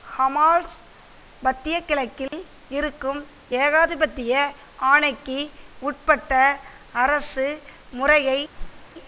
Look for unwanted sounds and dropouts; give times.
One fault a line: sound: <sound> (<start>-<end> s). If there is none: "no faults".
sound: dropout (2.3-2.3 s)
sound: whoosh (8.6-8.9 s)